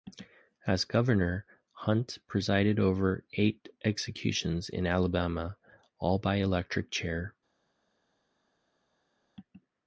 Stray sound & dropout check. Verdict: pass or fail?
pass